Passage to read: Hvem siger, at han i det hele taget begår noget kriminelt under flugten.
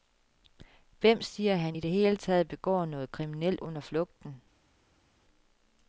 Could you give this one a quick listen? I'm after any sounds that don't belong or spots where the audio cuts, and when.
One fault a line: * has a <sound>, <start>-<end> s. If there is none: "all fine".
all fine